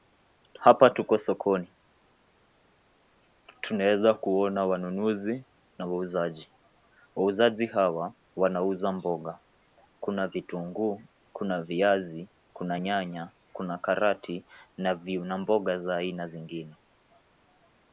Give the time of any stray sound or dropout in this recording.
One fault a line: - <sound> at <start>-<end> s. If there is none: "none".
none